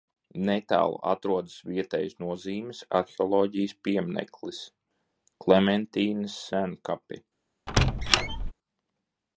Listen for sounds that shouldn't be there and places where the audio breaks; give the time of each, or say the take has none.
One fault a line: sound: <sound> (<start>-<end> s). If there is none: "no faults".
sound: squeak (7.7-8.5 s)